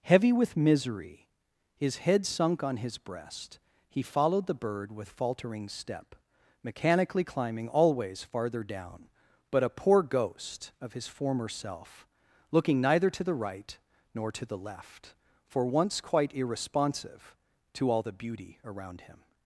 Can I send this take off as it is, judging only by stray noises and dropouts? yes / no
yes